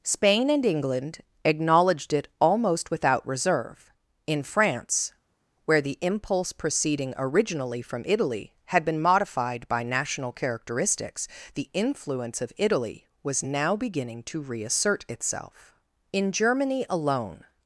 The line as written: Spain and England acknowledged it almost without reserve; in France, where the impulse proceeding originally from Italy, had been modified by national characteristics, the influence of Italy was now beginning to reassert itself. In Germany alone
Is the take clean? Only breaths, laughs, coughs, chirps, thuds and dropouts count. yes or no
yes